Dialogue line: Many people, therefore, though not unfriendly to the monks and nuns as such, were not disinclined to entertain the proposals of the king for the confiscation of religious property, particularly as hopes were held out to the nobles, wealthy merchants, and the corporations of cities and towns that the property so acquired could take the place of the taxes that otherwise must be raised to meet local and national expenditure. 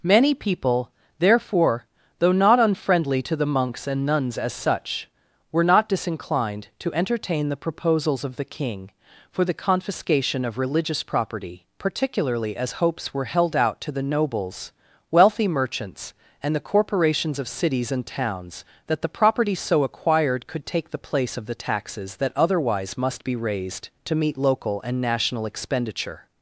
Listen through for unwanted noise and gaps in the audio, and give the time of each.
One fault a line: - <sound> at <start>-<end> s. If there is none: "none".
none